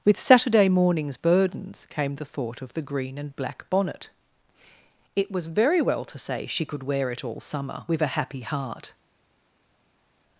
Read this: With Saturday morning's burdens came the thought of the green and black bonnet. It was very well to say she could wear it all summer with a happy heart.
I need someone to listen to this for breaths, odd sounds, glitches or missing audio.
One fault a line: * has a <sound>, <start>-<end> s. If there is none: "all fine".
all fine